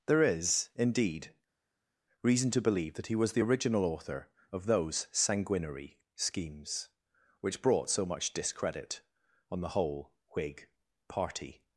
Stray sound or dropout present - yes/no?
no